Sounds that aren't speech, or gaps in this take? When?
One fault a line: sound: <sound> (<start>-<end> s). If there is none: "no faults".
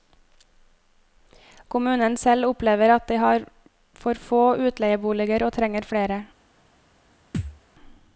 sound: thud (7.3-7.6 s)